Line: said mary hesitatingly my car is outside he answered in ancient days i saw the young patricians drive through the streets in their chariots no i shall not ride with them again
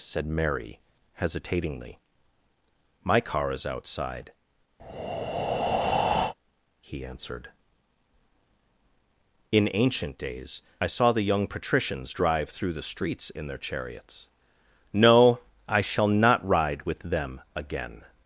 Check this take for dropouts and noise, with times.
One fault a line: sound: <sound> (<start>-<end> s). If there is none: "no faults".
sound: breath (4.8-6.3 s)